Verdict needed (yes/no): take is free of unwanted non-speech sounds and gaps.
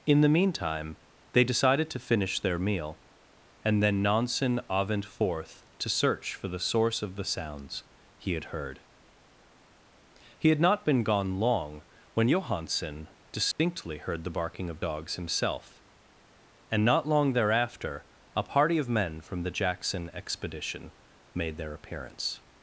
no